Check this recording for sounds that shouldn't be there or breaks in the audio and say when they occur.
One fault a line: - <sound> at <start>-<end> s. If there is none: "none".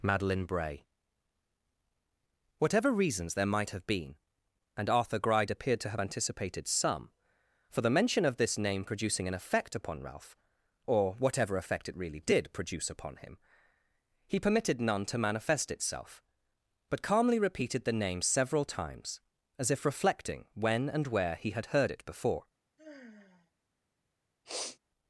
- sigh at 22.8-23.5 s
- sniff at 24.4-24.8 s